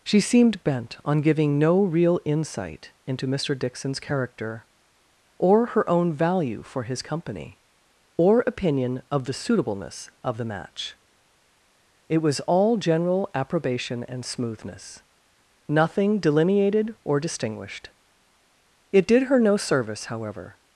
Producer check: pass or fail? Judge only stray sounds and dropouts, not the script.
pass